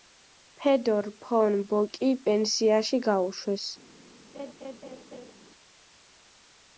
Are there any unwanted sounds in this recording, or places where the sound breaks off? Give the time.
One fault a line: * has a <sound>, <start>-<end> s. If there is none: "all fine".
* has a laugh, 4.3-5.3 s